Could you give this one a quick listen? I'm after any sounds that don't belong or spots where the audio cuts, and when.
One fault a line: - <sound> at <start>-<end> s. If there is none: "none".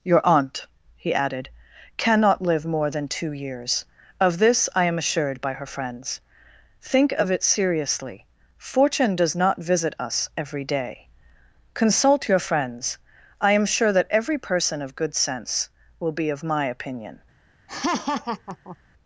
- laugh at 17.7-18.8 s